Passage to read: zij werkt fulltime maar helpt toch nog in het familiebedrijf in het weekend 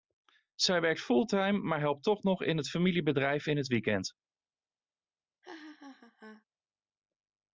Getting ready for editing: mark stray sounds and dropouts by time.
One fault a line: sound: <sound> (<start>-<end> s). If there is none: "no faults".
sound: laugh (5.4-6.4 s)